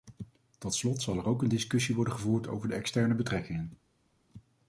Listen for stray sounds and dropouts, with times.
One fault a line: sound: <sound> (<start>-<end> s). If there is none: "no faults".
no faults